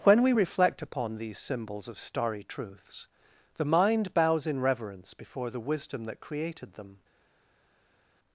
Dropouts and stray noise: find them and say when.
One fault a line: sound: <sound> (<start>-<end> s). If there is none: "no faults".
no faults